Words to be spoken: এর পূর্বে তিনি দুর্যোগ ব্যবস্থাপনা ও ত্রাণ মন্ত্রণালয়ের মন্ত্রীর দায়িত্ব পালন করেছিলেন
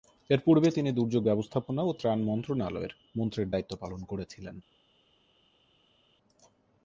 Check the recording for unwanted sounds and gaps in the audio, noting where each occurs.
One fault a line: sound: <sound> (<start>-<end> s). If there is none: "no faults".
no faults